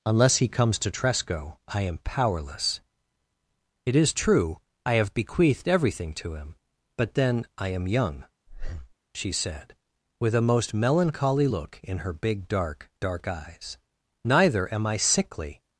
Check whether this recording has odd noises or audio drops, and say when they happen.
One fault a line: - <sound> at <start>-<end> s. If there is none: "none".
- breath at 8.5-8.9 s